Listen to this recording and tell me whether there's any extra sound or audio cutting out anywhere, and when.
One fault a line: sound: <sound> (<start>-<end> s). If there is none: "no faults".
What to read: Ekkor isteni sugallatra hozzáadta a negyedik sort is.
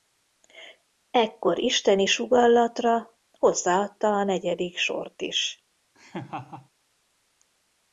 sound: laugh (5.9-6.7 s)